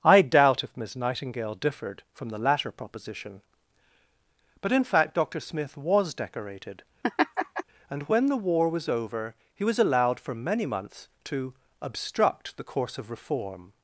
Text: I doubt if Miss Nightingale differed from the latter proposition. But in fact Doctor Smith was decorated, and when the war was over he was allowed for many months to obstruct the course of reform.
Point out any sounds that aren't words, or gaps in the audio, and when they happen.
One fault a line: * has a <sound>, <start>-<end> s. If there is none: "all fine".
* has a laugh, 7.0-7.6 s